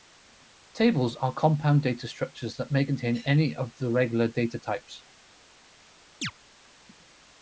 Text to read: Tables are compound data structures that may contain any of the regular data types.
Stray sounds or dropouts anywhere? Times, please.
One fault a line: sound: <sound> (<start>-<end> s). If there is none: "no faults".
sound: chirp (6.2-6.3 s)